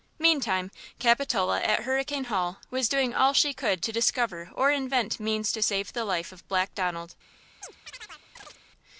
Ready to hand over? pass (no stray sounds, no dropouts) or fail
fail